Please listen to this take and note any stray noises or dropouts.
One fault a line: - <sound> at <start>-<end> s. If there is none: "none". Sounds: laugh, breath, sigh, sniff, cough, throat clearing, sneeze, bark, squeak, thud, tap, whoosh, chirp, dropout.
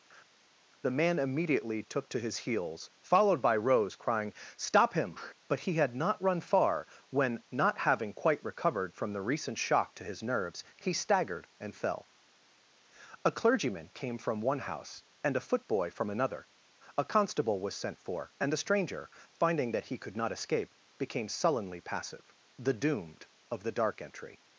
none